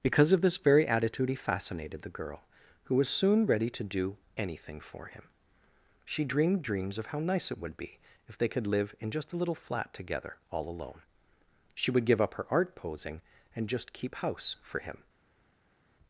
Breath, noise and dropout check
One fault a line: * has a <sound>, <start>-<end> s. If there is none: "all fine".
all fine